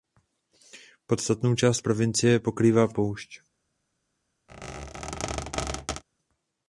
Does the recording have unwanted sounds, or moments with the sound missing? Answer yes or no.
yes